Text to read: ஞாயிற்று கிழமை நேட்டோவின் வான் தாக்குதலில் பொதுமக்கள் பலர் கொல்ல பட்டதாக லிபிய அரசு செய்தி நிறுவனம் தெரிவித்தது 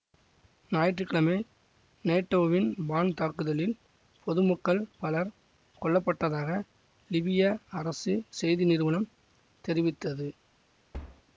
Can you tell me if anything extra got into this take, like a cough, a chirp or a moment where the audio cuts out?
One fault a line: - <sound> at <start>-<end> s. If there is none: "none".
- thud at 10.9-11.2 s